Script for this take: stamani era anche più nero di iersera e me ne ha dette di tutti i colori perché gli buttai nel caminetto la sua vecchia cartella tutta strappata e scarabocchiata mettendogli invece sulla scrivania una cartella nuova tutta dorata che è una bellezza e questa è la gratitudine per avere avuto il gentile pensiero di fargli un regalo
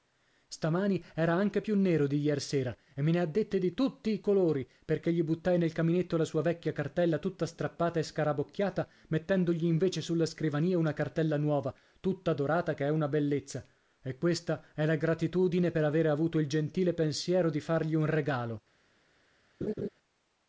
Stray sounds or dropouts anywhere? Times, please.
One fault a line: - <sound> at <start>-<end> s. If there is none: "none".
- laugh at 19.6-19.9 s